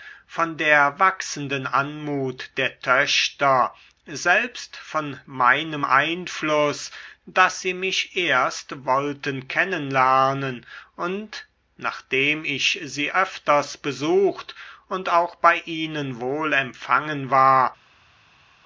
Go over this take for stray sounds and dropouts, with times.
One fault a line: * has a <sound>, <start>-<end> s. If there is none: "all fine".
all fine